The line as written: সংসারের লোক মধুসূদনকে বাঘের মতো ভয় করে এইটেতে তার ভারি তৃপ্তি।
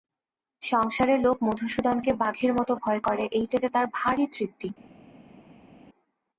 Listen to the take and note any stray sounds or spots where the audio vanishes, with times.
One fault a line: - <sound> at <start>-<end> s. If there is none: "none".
none